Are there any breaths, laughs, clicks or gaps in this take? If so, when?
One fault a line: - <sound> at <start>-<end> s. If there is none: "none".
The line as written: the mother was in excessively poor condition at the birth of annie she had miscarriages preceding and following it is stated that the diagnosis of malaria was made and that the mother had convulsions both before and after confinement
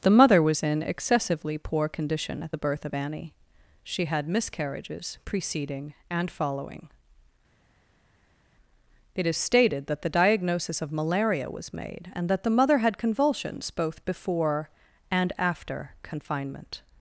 none